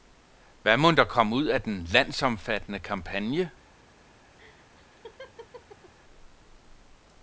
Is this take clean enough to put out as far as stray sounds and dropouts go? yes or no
no